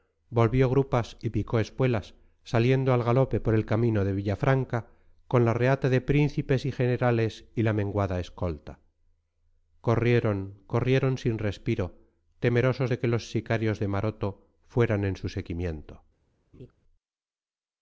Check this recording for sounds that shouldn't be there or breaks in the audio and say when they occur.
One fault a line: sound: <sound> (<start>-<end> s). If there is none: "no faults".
sound: laugh (16.5-16.7 s)